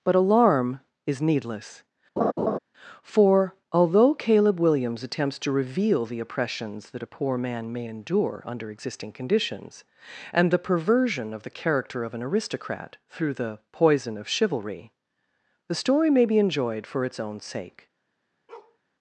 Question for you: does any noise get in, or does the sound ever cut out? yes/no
yes